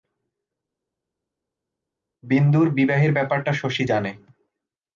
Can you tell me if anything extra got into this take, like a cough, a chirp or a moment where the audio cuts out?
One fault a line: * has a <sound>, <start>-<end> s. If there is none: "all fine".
all fine